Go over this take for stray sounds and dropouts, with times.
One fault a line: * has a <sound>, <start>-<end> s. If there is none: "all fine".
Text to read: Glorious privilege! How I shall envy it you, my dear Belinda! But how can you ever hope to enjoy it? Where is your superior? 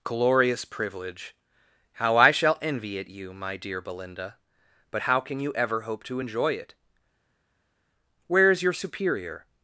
all fine